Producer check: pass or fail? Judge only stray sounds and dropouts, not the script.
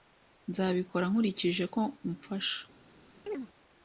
fail